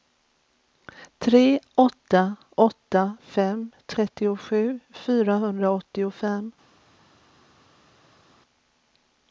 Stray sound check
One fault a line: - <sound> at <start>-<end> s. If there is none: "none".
none